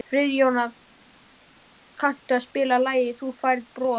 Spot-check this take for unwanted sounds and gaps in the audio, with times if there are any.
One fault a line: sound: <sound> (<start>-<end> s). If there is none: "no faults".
no faults